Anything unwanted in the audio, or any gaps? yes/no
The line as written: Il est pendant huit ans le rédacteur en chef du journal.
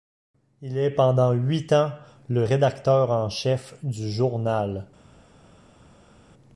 no